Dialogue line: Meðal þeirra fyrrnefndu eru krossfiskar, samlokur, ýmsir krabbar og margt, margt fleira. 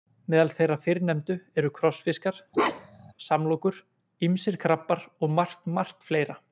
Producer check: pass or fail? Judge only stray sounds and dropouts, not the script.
fail